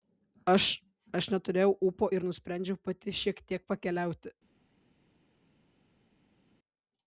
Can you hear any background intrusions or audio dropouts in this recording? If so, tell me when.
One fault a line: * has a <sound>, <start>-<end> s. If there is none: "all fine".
all fine